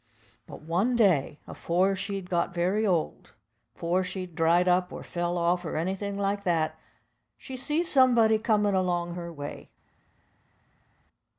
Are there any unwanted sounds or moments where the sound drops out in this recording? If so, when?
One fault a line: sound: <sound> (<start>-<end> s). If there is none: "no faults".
no faults